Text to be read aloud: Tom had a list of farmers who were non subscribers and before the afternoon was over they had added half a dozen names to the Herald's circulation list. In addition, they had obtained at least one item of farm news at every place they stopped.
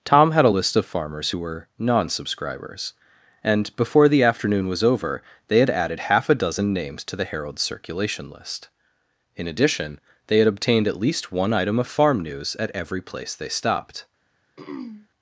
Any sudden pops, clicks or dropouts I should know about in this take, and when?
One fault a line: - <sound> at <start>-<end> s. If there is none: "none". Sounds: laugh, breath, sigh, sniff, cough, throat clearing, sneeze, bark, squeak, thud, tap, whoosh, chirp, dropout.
- throat clearing at 14.6-15.1 s